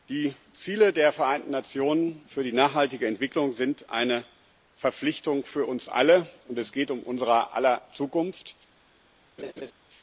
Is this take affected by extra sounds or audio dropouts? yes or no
yes